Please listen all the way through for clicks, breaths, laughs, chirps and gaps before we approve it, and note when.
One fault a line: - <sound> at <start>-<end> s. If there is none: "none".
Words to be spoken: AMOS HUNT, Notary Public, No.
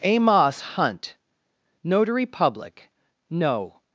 none